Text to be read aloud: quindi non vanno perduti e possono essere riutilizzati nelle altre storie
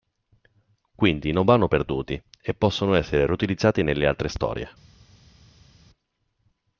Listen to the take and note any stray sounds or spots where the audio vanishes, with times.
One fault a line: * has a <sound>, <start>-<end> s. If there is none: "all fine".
all fine